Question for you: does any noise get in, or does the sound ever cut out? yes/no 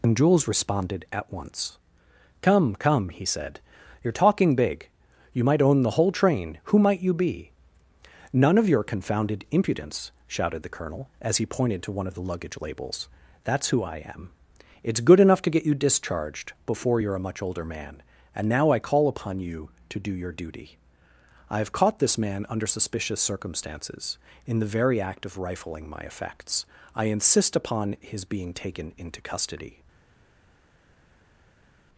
no